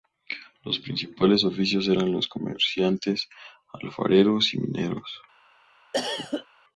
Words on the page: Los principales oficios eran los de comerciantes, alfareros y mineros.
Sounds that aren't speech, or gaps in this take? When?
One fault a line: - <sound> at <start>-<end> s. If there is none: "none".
- cough at 5.9-6.5 s